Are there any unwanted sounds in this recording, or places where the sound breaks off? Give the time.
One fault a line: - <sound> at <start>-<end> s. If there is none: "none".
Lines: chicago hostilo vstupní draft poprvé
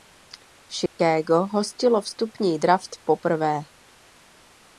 - dropout at 0.9-1.0 s